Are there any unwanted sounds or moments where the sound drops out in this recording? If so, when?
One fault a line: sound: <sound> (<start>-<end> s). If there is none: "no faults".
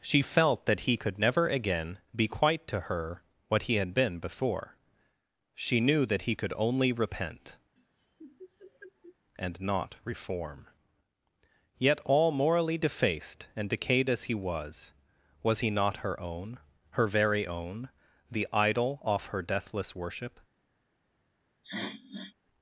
sound: laugh (7.8-9.2 s)
sound: sniff (21.6-22.4 s)